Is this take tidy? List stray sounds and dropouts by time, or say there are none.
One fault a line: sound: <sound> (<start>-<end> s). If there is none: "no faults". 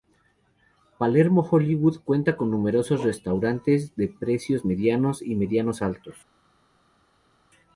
no faults